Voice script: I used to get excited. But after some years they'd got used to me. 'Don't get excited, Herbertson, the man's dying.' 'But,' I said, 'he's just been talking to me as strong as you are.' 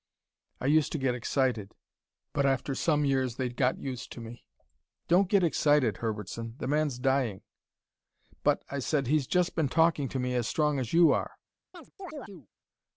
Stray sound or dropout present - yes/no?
yes